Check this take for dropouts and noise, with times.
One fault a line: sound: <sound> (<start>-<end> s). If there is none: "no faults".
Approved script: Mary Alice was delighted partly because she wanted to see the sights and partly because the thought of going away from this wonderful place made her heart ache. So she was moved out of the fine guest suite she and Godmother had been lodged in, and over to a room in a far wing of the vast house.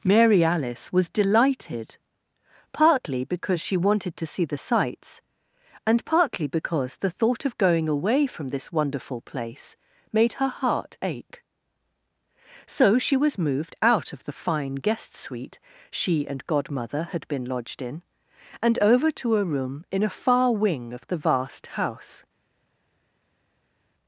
no faults